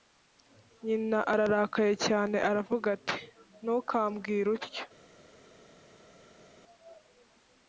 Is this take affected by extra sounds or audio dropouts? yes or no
no